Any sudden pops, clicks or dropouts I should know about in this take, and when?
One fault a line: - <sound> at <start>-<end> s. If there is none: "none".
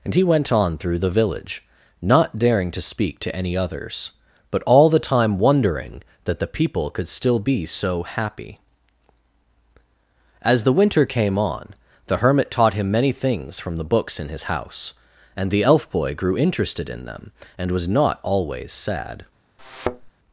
- thud at 19.6-20.1 s